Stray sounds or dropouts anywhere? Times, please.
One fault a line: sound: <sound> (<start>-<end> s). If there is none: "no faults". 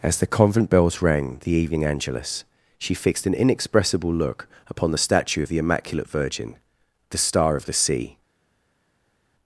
no faults